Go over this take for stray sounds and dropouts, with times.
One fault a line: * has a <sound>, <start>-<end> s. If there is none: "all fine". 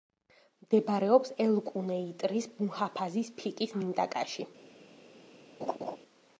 * has a laugh, 5.6-6.0 s